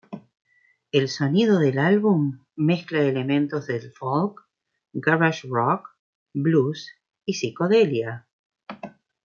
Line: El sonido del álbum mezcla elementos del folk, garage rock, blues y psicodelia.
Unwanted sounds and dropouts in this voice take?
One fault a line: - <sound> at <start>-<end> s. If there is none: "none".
none